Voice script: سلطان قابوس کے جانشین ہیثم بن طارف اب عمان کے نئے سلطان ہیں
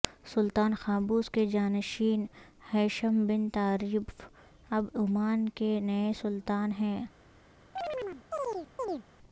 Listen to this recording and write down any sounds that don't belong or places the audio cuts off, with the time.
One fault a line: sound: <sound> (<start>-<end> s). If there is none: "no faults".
sound: chirp (7.8-9.0 s)